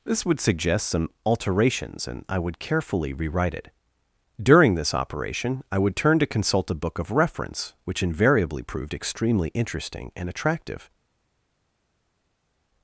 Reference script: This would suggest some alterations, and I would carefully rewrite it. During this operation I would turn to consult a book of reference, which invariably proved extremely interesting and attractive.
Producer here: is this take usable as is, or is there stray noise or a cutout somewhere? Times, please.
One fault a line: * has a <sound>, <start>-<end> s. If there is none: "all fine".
all fine